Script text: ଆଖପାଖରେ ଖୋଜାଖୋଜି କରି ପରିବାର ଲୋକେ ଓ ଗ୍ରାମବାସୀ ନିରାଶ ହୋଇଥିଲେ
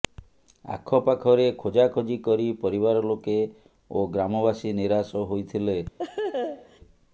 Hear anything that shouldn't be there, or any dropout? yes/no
yes